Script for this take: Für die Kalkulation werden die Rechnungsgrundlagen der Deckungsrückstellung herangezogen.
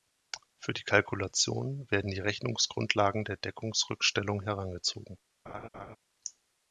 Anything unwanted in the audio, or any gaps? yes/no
yes